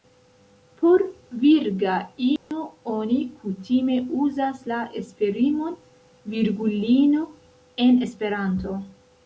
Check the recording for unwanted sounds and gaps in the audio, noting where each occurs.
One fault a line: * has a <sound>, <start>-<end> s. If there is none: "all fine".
* has a dropout, 2.4-2.5 s